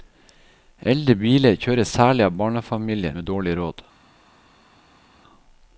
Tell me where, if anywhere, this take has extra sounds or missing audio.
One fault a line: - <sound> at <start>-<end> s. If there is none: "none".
none